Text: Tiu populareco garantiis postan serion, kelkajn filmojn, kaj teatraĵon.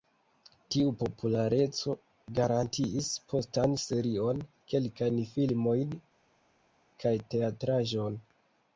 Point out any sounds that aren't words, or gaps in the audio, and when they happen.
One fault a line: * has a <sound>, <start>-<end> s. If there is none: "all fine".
all fine